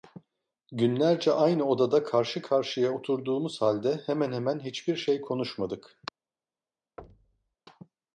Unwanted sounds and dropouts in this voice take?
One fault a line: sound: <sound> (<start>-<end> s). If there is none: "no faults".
sound: thud (7.0-7.5 s)